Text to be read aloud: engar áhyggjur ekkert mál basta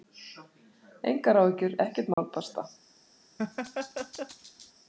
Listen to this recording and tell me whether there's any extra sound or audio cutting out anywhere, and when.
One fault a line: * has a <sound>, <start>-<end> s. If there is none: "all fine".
* has a dropout, 2.1-2.2 s
* has a laugh, 3.4-4.7 s